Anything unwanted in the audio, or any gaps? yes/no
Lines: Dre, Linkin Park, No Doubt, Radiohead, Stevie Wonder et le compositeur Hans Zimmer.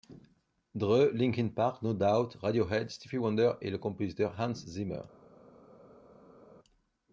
no